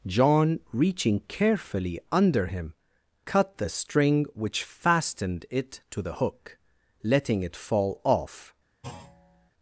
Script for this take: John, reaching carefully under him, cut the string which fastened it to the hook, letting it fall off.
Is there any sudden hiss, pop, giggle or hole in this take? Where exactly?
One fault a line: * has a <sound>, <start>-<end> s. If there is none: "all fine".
* has a thud, 8.8-9.5 s